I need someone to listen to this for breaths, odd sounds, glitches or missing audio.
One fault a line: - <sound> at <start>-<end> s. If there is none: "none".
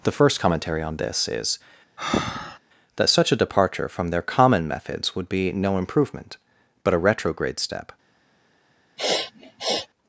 - breath at 2.0-2.6 s
- sniff at 9.0-9.9 s